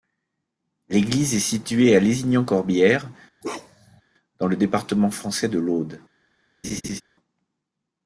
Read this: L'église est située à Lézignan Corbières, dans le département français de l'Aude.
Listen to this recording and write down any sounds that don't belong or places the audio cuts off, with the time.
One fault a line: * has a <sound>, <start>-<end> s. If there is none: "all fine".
* has a bark, 3.4-4.0 s
* has a laugh, 6.6-7.0 s